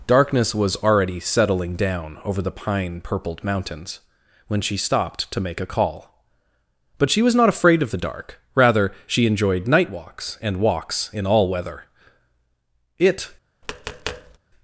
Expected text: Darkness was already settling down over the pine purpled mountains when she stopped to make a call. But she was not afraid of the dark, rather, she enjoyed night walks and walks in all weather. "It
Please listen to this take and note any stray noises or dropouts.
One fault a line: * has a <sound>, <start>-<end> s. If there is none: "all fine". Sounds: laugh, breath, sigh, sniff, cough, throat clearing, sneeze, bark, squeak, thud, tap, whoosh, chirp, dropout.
* has a tap, 13.6-14.4 s